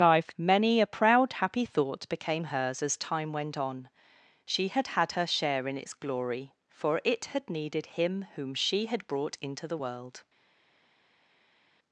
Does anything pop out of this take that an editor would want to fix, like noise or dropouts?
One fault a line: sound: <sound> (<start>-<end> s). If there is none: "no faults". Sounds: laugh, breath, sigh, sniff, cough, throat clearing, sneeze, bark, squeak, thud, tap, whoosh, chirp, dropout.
no faults